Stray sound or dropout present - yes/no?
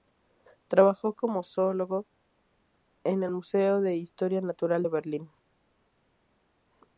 no